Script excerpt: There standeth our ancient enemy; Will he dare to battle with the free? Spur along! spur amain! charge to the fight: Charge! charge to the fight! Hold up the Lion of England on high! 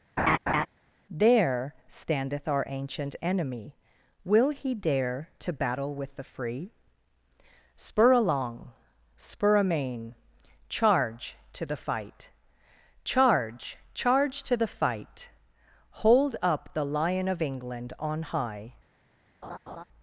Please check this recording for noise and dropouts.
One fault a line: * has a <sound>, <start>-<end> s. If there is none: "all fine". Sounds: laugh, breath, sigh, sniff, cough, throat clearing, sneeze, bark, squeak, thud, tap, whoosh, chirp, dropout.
* has a laugh, 0.2-0.7 s
* has a laugh, 19.4-19.8 s